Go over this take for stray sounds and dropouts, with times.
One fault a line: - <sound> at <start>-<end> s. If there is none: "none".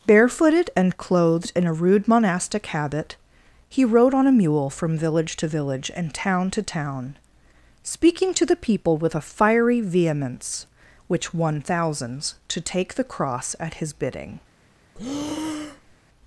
- breath at 14.9-16.0 s